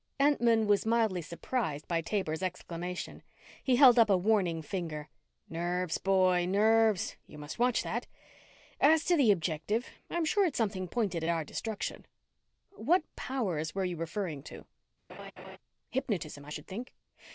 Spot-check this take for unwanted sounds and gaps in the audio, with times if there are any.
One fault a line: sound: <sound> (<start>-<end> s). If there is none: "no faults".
sound: laugh (15.1-15.6 s)